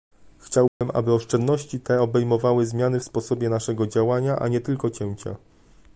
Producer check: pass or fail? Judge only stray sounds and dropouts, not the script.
fail